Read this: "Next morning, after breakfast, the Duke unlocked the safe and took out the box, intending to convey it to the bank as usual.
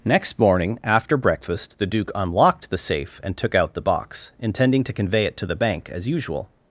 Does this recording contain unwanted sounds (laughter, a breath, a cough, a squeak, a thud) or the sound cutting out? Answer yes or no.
no